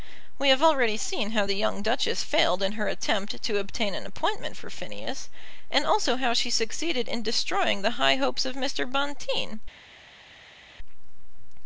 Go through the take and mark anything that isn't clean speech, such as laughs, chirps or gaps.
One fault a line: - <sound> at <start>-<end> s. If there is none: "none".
none